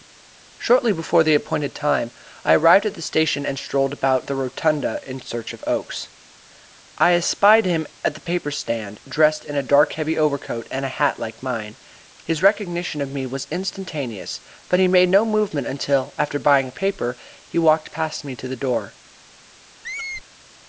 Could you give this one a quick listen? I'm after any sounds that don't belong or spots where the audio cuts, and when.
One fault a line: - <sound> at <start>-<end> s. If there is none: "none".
- squeak at 19.8-20.2 s